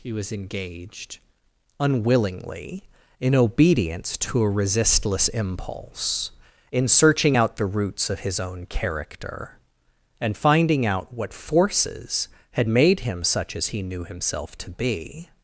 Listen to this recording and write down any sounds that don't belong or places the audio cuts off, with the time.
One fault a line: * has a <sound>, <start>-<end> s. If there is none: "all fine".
all fine